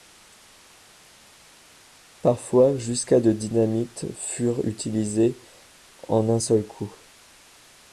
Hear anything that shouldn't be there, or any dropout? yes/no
no